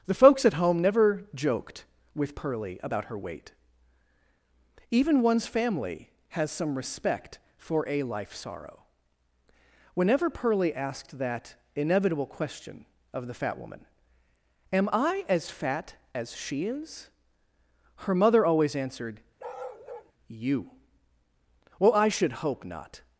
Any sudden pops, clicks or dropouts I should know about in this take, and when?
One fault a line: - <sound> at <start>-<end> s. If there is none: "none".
- bark at 19.4-20.1 s